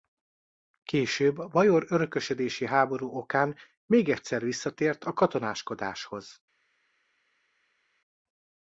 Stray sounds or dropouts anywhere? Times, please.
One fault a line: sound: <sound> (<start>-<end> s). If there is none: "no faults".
no faults